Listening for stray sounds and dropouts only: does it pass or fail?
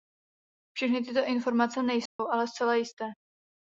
fail